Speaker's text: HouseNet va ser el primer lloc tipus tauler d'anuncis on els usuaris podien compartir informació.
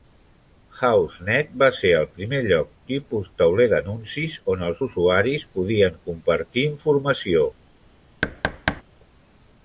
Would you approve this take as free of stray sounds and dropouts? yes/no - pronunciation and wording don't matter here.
no